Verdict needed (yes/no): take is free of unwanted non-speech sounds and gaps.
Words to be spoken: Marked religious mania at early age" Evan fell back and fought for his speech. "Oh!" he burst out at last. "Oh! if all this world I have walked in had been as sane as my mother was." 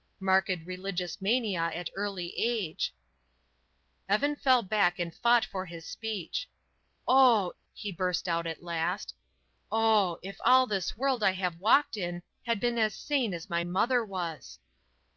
yes